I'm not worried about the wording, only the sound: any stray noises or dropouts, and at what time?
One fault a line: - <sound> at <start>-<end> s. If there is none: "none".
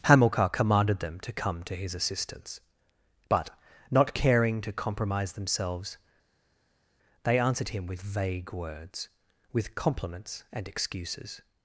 none